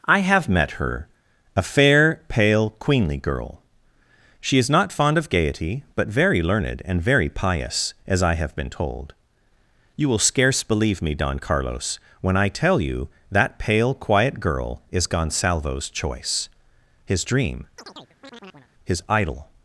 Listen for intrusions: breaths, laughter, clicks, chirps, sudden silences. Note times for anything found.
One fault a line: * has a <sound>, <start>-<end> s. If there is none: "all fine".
* has a chirp, 17.8-18.7 s